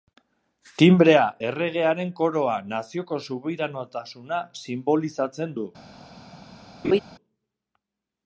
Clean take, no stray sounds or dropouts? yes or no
no